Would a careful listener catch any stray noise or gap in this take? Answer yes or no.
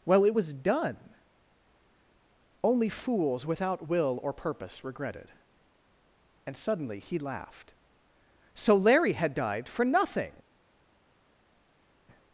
no